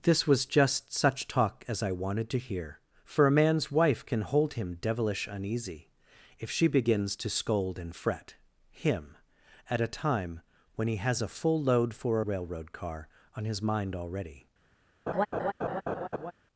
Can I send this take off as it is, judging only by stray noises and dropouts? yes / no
no